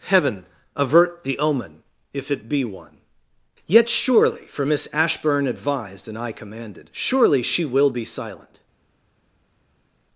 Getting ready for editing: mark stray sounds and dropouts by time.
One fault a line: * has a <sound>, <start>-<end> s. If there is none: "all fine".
all fine